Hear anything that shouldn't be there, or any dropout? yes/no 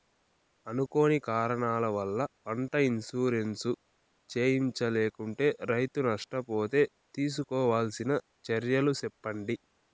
no